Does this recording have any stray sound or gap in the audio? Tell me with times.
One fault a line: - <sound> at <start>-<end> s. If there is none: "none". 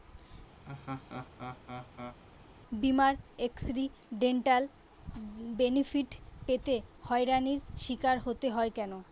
- laugh at 0.6-2.2 s